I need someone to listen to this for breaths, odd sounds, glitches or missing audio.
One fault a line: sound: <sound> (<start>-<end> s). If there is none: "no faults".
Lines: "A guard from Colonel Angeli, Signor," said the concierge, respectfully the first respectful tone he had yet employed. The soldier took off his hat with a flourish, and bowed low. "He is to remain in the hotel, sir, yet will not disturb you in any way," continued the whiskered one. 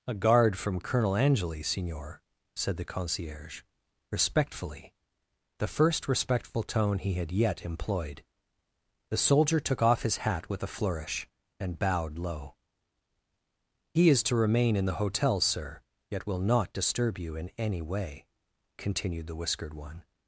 no faults